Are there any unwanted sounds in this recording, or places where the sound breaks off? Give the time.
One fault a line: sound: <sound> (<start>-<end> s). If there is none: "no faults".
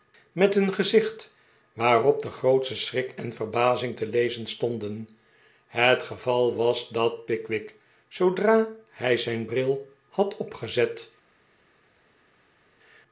no faults